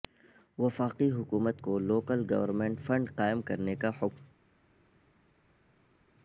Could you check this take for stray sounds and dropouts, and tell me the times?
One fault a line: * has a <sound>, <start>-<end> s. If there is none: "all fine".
all fine